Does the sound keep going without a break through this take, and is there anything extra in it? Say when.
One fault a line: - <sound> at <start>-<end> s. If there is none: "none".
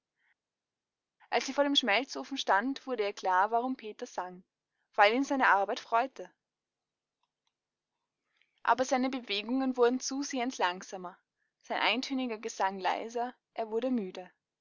none